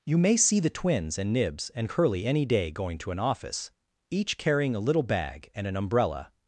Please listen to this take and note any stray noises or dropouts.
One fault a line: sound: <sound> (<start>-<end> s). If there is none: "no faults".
no faults